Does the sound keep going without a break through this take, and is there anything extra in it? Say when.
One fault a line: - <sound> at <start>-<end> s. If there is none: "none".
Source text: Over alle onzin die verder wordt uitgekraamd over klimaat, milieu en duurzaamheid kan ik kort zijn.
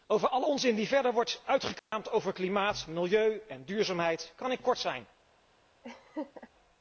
- dropout at 1.8-1.9 s
- laugh at 5.8-6.5 s